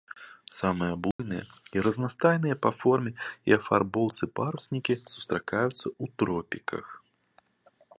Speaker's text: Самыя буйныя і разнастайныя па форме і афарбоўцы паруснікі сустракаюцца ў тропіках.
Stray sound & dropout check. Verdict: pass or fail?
fail